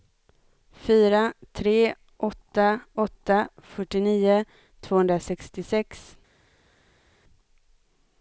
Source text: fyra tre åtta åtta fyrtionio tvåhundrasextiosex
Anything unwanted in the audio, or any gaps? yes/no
no